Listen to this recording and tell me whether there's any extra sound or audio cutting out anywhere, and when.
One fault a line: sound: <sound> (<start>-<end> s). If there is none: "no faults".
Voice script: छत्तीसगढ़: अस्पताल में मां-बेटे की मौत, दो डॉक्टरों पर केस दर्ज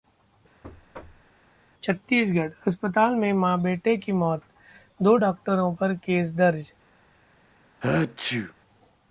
sound: thud (0.6-1.3 s)
sound: sneeze (7.8-8.5 s)